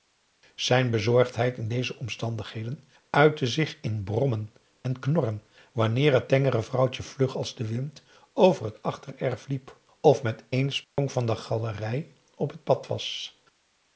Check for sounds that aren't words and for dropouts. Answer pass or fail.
fail